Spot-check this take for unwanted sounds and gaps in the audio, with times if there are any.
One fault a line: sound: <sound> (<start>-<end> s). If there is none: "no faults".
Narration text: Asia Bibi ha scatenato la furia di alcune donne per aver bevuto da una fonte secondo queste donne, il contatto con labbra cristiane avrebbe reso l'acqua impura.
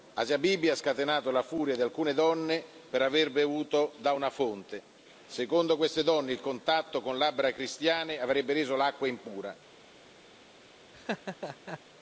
sound: laugh (10.9-11.8 s)